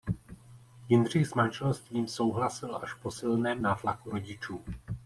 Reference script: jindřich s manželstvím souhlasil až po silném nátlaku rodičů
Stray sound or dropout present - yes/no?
no